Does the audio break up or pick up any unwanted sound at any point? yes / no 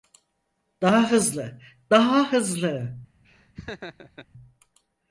yes